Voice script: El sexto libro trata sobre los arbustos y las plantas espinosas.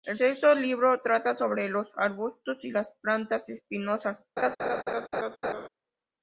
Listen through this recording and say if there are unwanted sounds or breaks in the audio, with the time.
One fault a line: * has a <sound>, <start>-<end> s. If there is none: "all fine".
* has a laugh, 4.4-5.7 s